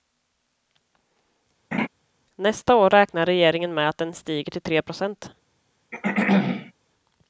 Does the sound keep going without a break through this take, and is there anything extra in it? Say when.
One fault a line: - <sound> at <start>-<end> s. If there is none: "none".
- laugh at 1.7-1.9 s
- throat clearing at 5.9-6.7 s